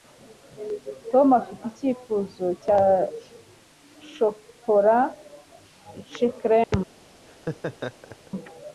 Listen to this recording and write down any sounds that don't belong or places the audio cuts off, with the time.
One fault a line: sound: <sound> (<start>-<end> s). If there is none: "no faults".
sound: dropout (6.6-6.7 s)
sound: laugh (7.3-8.3 s)